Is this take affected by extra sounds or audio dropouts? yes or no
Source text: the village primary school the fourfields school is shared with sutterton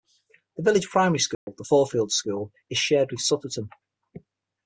yes